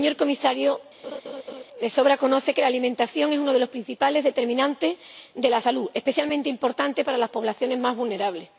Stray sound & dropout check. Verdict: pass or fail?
fail